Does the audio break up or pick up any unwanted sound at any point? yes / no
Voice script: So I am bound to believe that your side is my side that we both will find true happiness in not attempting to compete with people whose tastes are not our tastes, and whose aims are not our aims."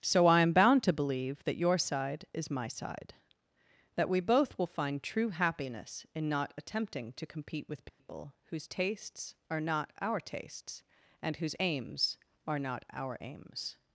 yes